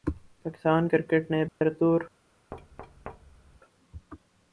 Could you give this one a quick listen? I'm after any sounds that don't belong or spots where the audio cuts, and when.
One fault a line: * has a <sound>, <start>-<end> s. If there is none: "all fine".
* has a dropout, 1.5-1.6 s
* has a thud, 2.5-3.6 s